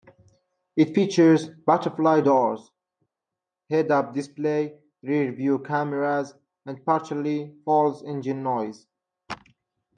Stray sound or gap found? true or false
false